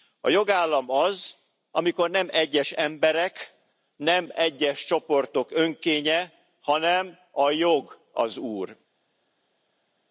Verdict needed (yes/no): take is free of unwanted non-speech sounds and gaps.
yes